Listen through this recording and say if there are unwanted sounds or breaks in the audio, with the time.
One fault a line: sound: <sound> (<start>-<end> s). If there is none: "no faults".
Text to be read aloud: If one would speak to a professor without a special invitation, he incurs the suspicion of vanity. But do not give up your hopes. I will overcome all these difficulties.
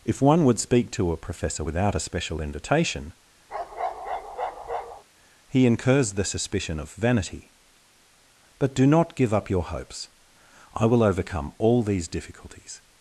sound: bark (3.5-5.0 s)